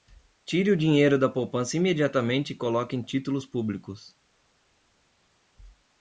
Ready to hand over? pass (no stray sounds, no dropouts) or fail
pass